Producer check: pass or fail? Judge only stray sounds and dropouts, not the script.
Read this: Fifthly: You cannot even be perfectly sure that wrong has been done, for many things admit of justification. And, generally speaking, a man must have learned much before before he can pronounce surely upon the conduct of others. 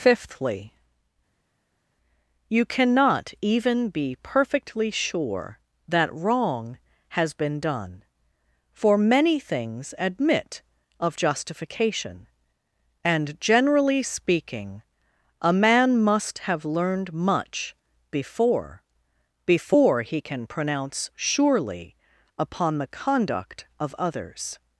pass